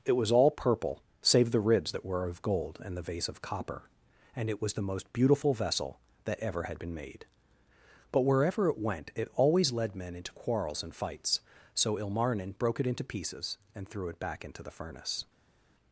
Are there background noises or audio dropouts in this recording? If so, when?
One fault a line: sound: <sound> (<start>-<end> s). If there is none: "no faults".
no faults